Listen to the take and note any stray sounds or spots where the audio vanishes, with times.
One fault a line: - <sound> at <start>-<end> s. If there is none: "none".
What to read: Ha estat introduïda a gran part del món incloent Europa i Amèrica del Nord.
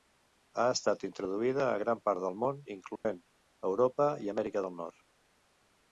- dropout at 3.0-3.1 s